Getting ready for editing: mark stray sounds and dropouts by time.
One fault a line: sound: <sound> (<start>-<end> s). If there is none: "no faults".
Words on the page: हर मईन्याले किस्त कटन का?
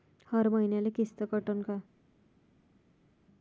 no faults